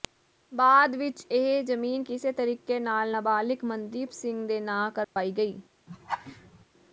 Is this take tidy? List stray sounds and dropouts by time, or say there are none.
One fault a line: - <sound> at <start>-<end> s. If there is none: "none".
- dropout at 5.0-5.2 s
- laugh at 5.9-6.6 s